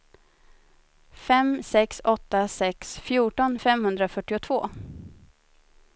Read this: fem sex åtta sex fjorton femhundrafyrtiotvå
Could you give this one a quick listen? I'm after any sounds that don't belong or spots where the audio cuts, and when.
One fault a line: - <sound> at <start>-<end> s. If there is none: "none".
none